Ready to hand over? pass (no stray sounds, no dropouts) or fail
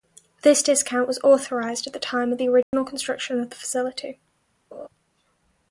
fail